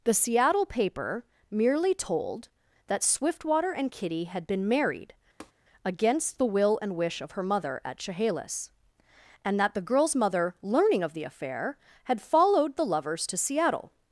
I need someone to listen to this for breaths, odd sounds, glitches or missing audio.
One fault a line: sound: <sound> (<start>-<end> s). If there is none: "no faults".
sound: tap (5.4-5.5 s)